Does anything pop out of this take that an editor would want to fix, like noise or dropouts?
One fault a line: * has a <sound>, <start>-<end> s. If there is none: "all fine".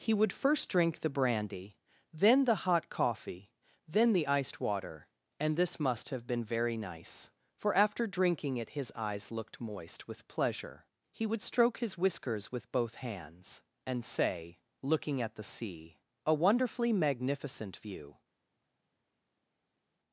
all fine